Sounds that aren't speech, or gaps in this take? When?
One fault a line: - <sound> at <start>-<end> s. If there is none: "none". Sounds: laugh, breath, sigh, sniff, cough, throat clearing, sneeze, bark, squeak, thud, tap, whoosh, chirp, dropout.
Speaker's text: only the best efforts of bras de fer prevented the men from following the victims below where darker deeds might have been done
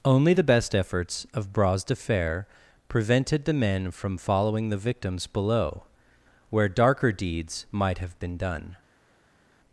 none